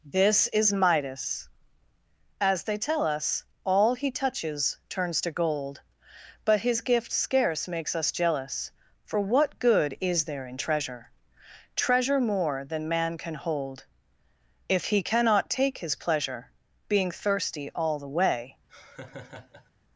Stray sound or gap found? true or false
true